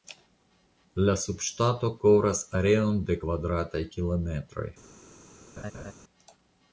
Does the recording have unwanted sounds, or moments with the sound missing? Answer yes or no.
yes